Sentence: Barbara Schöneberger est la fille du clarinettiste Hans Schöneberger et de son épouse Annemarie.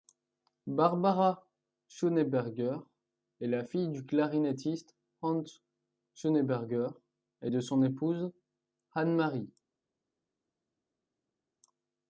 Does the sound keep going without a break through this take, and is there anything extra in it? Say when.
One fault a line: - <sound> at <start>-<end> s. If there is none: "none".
none